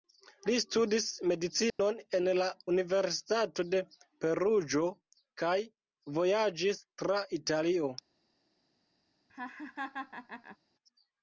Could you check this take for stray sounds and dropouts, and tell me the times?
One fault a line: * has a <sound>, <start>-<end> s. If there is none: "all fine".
* has a dropout, 1.7-1.8 s
* has a laugh, 9.3-10.6 s